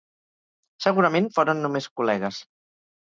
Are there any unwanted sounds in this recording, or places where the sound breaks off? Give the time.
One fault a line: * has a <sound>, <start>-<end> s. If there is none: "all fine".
all fine